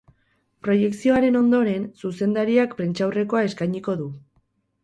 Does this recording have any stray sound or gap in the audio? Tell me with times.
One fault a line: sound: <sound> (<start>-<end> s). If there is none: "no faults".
no faults